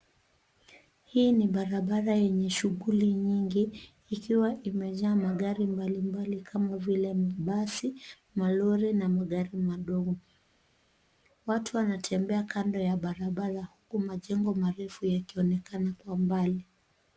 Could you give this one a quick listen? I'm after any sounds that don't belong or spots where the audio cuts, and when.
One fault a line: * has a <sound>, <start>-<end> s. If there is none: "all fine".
all fine